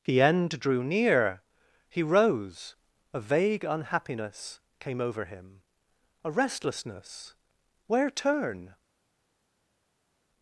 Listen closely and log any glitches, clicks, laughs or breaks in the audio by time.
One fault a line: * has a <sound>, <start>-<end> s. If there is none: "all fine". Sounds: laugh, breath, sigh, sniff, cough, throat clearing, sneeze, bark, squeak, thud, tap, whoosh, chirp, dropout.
all fine